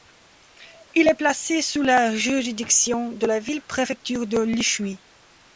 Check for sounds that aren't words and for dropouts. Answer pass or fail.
pass